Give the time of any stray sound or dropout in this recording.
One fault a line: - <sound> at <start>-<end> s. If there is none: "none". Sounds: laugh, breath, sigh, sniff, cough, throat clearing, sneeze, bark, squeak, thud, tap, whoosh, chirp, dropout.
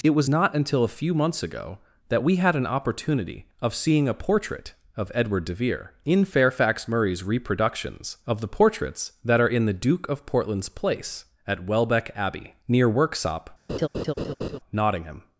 - laugh at 13.7-14.6 s